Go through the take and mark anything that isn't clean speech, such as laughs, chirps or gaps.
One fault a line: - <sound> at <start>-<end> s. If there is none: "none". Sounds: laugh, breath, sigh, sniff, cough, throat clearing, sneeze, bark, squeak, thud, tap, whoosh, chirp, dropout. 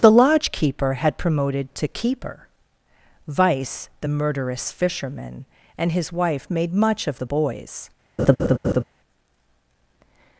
- laugh at 8.2-8.8 s